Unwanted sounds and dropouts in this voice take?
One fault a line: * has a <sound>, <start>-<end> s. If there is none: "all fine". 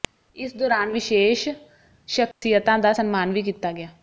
* has a dropout, 2.3-2.4 s